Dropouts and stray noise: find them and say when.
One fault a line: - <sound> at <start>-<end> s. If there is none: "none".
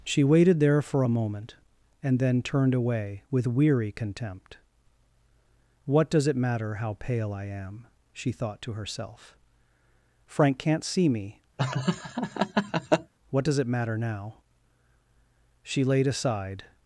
- laugh at 11.6-13.1 s